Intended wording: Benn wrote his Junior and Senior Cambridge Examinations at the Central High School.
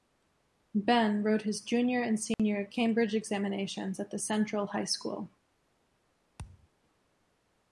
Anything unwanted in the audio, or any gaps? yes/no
yes